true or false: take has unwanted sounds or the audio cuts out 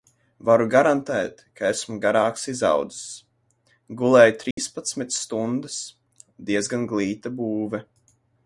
true